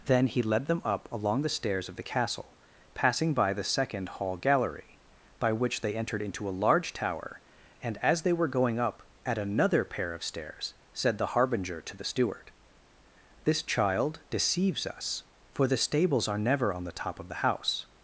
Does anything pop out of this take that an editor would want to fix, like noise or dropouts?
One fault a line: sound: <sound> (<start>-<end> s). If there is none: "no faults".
no faults